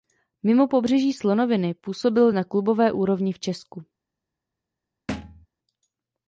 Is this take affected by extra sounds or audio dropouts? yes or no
yes